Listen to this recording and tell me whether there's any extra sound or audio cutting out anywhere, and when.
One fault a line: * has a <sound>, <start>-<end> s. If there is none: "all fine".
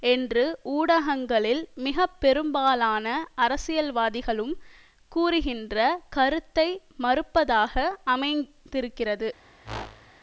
* has a whoosh, 9.6-10.1 s